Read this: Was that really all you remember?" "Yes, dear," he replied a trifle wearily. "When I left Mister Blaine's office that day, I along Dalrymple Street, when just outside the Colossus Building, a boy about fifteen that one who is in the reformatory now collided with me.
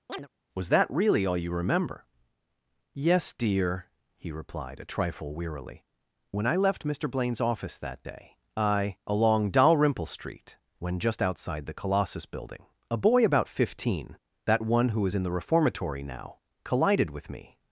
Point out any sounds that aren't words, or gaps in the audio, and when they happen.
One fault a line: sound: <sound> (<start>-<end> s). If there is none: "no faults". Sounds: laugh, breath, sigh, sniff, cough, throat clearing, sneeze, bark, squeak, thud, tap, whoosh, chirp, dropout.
sound: chirp (0.1-0.3 s)